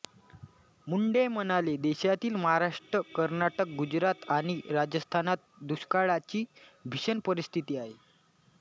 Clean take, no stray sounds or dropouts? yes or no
yes